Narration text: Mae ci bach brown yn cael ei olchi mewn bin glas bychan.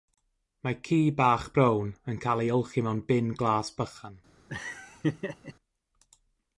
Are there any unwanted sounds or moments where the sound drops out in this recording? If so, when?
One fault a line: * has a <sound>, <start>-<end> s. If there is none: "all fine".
* has a laugh, 4.5-5.5 s